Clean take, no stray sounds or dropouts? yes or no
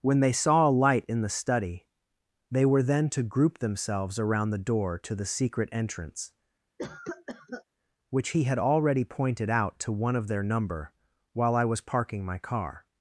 no